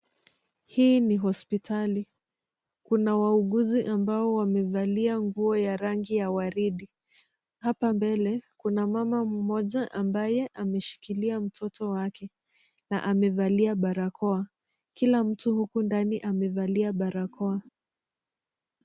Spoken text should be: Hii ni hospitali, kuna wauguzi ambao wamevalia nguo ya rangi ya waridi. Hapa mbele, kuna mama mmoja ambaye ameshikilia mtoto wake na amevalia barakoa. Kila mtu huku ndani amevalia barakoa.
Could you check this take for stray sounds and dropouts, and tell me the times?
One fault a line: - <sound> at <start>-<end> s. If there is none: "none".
none